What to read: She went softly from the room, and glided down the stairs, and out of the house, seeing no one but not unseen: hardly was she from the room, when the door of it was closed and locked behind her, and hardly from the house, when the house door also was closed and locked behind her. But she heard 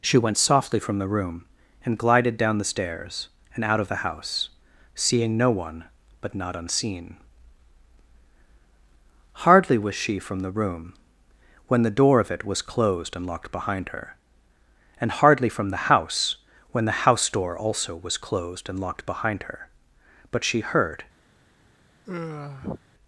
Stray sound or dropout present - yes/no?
yes